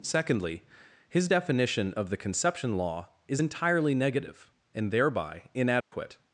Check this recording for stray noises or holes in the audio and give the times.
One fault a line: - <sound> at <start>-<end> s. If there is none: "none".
- dropout at 5.8-5.9 s